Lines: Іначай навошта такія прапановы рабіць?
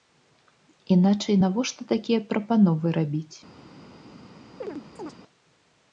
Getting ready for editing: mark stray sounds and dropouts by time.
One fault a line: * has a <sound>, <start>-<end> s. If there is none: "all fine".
* has a chirp, 4.6-5.2 s